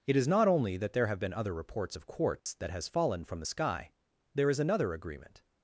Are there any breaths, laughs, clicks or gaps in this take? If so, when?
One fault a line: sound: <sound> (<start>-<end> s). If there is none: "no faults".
sound: dropout (2.4-2.5 s)